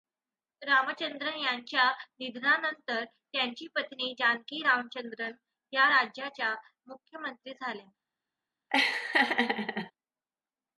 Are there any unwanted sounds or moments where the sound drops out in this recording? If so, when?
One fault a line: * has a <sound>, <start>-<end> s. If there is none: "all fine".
* has a laugh, 8.7-9.9 s